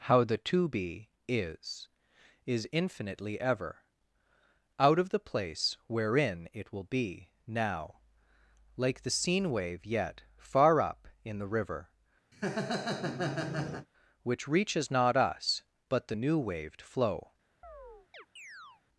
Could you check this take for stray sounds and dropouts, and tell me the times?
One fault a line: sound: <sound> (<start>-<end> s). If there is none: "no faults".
sound: laugh (12.3-13.9 s)
sound: chirp (17.6-18.8 s)